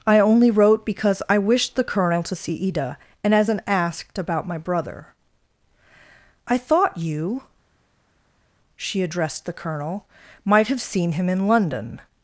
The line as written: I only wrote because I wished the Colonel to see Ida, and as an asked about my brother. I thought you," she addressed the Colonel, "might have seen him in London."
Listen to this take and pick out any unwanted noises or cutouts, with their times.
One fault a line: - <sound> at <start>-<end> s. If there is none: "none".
none